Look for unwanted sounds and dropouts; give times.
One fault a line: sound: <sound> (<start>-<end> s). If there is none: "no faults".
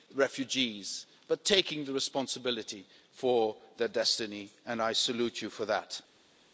no faults